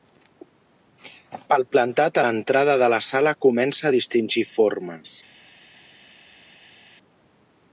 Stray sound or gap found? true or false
false